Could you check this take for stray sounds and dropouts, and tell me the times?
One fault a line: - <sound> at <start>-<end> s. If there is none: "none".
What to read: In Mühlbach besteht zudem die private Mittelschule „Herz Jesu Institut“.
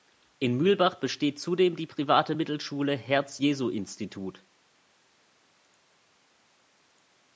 none